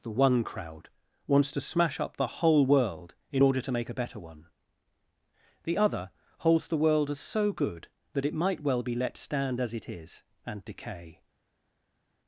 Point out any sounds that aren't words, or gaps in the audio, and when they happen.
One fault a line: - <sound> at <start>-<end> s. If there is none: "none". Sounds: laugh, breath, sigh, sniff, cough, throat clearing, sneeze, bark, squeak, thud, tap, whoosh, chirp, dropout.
none